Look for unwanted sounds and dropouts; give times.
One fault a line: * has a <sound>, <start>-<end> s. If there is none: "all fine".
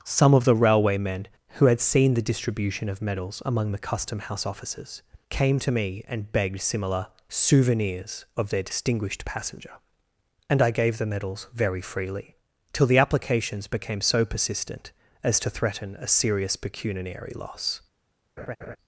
* has a laugh, 18.4-18.8 s